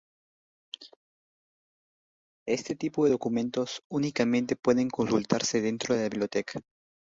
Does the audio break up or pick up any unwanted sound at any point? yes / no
no